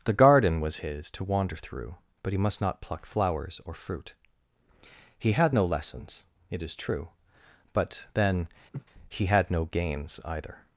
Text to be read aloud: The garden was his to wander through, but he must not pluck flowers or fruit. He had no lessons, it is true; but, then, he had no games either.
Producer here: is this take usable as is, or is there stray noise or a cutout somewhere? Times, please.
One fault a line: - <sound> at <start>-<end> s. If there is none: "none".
- sniff at 8.7-8.9 s